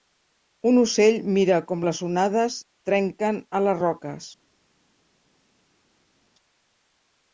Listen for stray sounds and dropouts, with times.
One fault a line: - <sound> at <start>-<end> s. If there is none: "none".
none